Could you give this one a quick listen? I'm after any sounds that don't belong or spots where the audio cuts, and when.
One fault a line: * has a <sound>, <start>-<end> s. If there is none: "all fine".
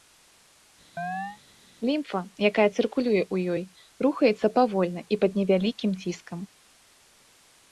* has a chirp, 1.0-1.4 s